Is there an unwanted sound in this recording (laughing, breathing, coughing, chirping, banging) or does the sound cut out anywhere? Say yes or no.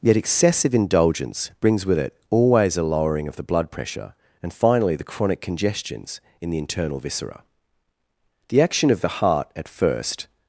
no